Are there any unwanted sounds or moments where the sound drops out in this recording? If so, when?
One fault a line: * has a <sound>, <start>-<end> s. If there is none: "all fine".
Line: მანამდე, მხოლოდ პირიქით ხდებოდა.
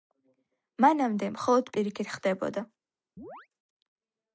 * has a chirp, 3.2-3.5 s